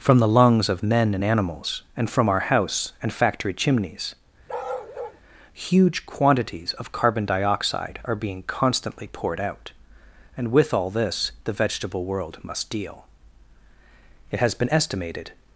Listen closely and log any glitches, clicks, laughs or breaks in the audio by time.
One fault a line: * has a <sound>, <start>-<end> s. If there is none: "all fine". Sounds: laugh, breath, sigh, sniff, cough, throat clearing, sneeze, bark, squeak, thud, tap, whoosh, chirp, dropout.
* has a bark, 4.5-5.2 s